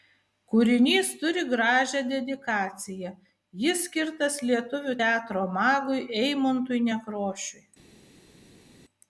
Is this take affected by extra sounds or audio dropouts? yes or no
no